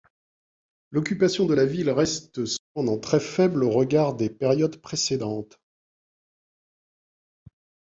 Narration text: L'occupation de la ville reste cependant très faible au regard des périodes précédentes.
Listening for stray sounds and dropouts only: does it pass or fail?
pass